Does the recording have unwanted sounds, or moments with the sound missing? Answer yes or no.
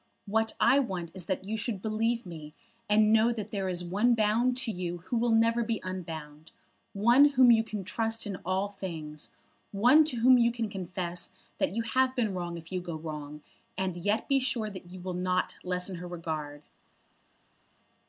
no